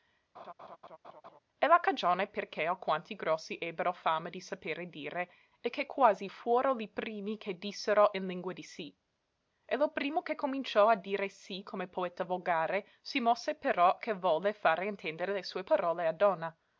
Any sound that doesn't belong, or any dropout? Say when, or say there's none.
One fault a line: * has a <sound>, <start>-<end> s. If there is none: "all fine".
* has a laugh, 0.3-1.4 s